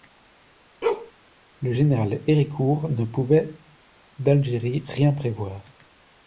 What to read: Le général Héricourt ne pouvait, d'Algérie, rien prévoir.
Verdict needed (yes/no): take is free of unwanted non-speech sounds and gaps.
no